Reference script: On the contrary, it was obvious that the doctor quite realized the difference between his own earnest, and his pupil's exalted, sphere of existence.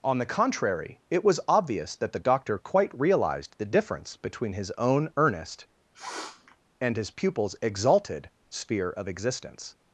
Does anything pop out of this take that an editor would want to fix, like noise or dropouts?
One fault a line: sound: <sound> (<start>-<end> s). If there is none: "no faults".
sound: sniff (5.9-6.6 s)